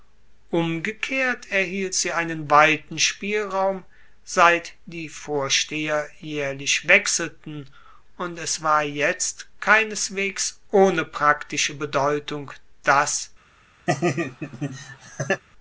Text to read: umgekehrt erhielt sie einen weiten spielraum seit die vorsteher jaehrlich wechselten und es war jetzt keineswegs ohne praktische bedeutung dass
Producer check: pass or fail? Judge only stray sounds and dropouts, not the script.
fail